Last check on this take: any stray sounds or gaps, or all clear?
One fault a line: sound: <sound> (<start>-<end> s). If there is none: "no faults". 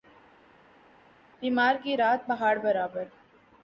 no faults